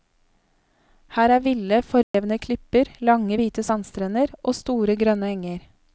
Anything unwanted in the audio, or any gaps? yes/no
yes